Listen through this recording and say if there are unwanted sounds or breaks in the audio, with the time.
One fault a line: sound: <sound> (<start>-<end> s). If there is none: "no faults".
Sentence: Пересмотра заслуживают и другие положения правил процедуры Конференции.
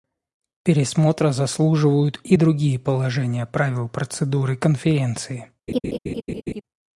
sound: laugh (5.7-6.6 s)